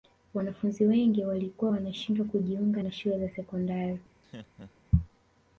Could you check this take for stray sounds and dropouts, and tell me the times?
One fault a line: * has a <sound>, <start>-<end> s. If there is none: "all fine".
* has a laugh, 4.2-4.9 s